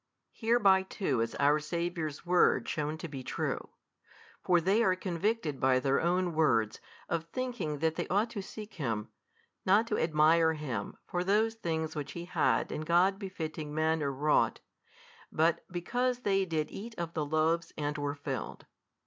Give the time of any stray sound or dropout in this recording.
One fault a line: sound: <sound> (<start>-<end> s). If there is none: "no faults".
no faults